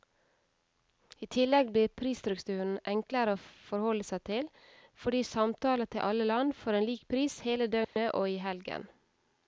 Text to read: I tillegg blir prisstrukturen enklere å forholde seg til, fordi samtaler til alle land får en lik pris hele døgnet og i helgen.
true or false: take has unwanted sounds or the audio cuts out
true